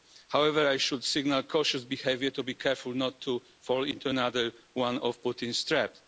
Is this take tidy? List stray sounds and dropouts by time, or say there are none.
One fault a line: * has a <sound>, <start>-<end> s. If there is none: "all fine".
all fine